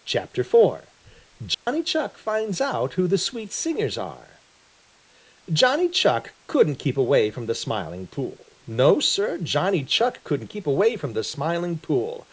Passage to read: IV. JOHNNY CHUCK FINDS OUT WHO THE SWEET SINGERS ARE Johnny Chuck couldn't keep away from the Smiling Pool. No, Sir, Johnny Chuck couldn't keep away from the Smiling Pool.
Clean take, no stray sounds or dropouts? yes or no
no